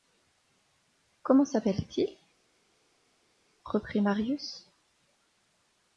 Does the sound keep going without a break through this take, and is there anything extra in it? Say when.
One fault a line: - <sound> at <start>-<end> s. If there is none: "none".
none